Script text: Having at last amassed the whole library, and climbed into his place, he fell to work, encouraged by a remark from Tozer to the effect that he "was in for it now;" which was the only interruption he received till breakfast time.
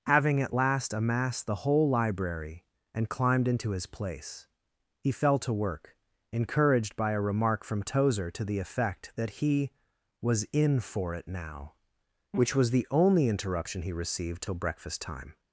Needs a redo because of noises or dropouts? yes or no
no